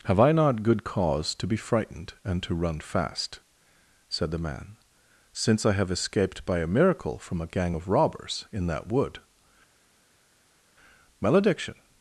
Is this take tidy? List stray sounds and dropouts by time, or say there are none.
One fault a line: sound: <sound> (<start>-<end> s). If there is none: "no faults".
no faults